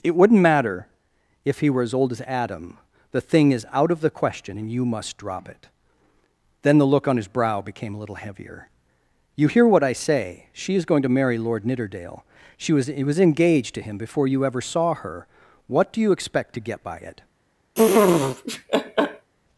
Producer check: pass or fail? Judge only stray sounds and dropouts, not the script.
fail